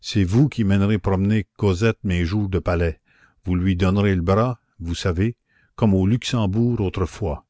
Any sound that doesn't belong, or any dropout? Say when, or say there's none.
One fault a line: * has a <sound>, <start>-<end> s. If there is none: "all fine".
all fine